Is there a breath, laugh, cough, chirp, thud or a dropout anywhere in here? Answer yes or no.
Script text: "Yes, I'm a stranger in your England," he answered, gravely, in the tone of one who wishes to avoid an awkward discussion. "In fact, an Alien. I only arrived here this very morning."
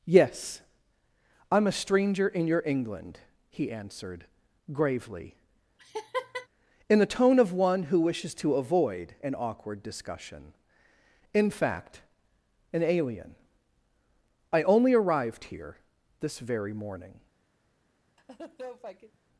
yes